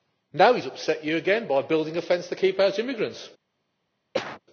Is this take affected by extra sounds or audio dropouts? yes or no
yes